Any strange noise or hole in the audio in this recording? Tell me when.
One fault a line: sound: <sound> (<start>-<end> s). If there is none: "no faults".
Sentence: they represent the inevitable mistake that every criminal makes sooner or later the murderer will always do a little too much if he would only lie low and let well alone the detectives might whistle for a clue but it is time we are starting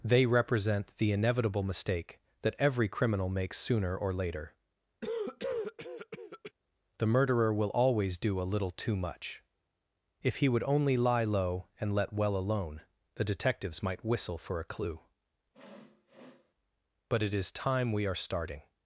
sound: cough (5.0-6.5 s)
sound: sniff (15.5-16.5 s)